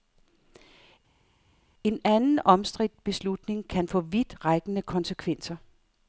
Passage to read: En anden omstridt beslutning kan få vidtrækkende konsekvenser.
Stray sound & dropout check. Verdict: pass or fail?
pass